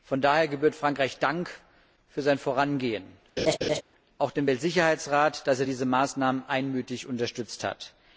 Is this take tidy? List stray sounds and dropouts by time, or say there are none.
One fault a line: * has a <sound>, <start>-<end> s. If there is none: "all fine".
* has a laugh, 3.4-3.8 s